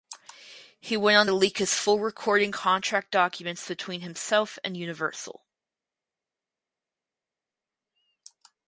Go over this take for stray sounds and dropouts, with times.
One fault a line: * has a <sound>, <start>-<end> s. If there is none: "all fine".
all fine